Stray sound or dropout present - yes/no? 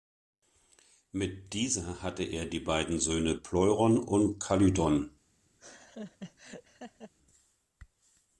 yes